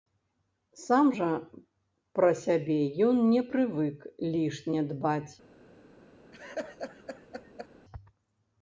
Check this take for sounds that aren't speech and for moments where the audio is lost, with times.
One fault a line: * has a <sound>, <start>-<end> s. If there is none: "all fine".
* has a laugh, 6.3-7.7 s